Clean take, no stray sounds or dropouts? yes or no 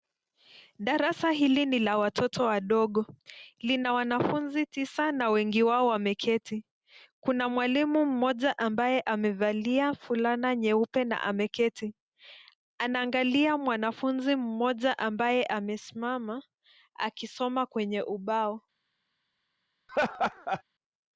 no